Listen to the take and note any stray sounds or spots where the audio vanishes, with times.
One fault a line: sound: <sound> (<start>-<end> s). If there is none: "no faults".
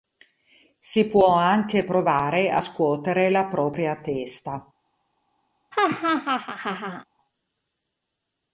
sound: laugh (5.7-7.0 s)